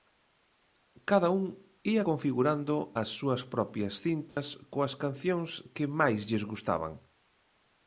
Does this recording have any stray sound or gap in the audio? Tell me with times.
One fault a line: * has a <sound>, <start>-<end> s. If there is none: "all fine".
* has a dropout, 4.3-4.4 s